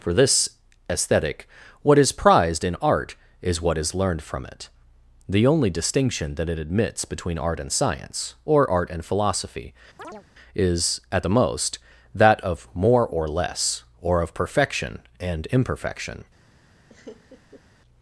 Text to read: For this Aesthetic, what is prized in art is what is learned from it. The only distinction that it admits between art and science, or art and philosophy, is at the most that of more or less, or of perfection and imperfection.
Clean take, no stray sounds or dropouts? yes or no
no